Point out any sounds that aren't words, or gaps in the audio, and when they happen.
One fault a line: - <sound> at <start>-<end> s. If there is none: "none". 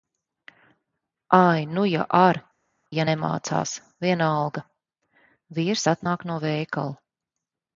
none